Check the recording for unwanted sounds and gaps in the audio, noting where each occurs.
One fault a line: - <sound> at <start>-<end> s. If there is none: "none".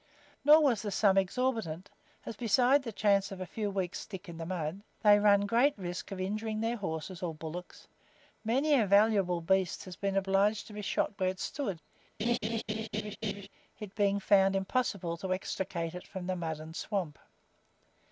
- laugh at 12.2-13.5 s